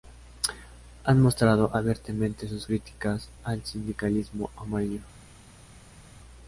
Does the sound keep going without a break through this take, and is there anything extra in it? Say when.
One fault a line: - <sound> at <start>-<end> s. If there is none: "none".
none